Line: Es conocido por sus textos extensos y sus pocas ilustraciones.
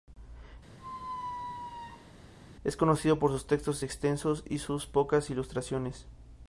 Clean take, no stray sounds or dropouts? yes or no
no